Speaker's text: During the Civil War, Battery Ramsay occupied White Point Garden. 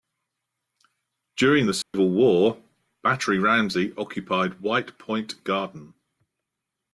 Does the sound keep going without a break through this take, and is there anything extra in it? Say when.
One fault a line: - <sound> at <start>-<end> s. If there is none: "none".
- dropout at 1.8-1.9 s